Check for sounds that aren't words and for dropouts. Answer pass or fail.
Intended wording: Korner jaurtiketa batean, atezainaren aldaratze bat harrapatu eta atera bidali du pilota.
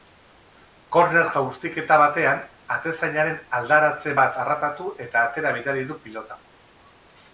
pass